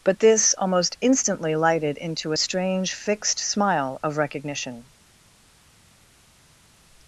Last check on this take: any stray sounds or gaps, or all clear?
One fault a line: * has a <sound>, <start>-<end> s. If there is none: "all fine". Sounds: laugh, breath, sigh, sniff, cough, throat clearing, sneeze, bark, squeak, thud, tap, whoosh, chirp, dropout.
all fine